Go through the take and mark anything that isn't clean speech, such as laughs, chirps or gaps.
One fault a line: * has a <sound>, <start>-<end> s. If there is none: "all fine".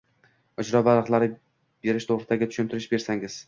all fine